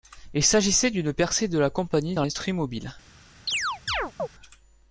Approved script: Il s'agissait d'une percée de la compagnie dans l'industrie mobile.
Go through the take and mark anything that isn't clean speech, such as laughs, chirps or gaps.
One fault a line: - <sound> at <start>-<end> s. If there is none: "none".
- chirp at 3.5-4.3 s